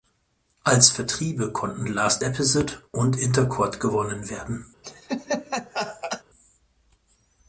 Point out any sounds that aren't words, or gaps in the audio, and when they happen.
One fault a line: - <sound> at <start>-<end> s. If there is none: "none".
- laugh at 4.8-6.2 s